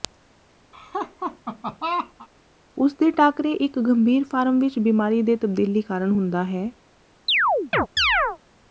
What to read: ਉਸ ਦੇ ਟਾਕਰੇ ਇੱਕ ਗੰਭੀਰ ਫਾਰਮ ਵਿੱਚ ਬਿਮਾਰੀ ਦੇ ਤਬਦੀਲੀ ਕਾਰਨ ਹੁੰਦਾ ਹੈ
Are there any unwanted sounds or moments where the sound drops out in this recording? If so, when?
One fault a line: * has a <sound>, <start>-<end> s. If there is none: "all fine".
* has a laugh, 0.7-2.3 s
* has a chirp, 7.3-8.4 s